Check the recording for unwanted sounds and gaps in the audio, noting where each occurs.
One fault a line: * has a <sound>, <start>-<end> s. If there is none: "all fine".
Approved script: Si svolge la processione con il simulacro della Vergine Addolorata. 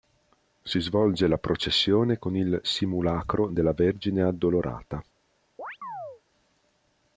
* has a chirp, 5.6-6.2 s